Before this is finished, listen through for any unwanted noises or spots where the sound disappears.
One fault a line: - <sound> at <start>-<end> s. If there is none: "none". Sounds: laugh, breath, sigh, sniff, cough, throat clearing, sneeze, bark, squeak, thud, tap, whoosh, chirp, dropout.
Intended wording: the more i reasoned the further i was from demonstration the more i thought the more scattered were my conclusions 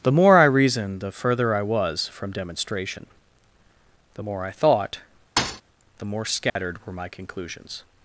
- thud at 5.4-5.6 s
- dropout at 6.5-6.6 s